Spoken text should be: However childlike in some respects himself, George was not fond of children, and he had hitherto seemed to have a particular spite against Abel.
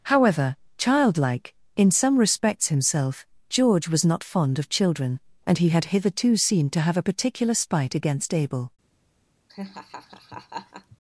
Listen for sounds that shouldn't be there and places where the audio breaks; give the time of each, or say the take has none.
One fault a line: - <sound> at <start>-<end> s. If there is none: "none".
- laugh at 9.5-11.0 s